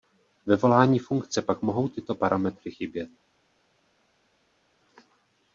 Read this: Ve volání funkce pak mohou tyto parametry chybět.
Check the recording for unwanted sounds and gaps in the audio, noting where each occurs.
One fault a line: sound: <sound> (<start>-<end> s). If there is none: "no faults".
no faults